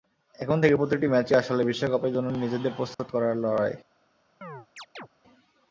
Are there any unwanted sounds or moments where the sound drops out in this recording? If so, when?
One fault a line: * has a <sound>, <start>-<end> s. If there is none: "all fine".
* has a dropout, 2.9-3.0 s
* has a chirp, 4.4-5.1 s